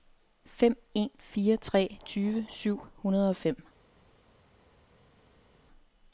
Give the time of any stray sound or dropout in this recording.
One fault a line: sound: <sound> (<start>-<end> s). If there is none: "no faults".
no faults